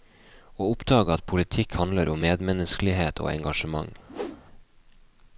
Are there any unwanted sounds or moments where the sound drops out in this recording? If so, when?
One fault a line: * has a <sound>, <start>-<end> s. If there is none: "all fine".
* has a whoosh, 4.1-4.4 s